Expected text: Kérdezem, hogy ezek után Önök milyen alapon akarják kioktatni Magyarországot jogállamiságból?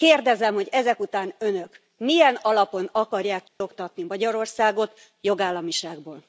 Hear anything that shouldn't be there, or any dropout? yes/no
yes